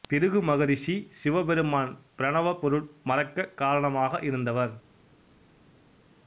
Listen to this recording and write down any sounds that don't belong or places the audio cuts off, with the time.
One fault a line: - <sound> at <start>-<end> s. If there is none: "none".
none